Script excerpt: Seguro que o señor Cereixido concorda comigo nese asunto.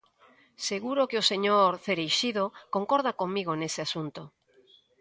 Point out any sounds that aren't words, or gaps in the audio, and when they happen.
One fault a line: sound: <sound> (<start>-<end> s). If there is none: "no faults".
no faults